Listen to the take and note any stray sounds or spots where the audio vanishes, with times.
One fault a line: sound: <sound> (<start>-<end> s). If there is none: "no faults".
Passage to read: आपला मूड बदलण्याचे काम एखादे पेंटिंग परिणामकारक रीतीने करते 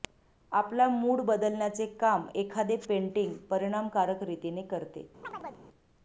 sound: chirp (5.2-5.7 s)